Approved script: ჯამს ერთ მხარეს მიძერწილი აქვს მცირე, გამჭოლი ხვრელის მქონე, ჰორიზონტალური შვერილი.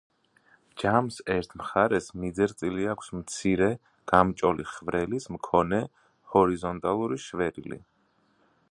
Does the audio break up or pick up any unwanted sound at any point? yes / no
no